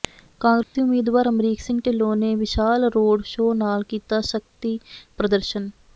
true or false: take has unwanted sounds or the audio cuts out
true